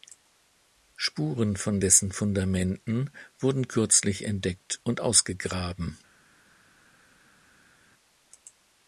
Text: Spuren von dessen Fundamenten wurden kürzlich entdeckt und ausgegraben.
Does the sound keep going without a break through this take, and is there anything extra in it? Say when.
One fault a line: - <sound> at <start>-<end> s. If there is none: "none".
none